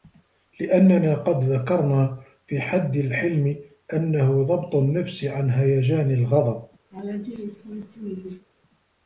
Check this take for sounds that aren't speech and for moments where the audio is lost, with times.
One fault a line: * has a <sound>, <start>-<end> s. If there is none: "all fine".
* has a laugh, 6.9-8.5 s